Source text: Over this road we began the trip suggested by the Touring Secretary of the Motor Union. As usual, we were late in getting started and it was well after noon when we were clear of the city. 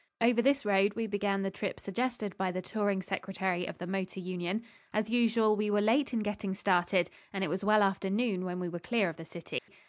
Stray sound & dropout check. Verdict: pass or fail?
fail